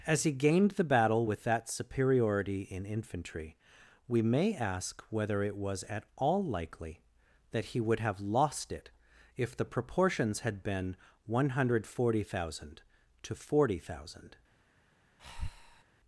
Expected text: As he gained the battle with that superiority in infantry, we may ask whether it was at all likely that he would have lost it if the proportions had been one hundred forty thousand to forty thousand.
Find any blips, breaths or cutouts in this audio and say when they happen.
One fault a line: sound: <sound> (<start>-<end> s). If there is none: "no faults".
sound: breath (15.2-15.8 s)